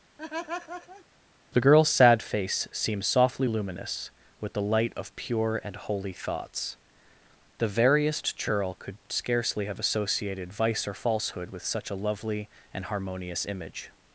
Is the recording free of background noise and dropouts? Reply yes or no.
no